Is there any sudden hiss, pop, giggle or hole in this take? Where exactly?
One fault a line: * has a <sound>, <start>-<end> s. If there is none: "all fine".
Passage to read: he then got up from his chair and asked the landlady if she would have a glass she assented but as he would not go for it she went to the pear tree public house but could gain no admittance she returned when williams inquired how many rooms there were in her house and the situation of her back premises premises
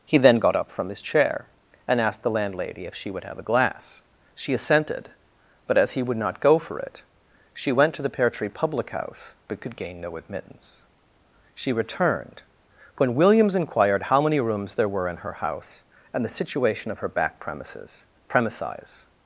all fine